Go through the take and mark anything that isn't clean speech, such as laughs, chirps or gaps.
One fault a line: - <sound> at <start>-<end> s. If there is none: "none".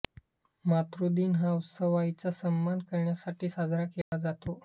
- dropout at 4.0-4.1 s